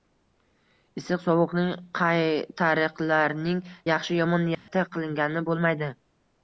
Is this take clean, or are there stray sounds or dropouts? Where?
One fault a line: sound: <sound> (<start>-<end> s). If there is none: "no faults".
sound: dropout (4.5-4.7 s)